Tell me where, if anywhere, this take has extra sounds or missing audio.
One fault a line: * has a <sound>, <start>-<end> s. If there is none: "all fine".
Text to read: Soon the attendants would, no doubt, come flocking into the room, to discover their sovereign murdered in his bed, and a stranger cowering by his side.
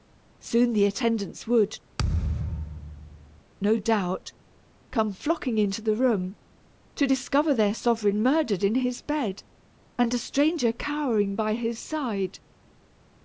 * has a thud, 2.0-3.4 s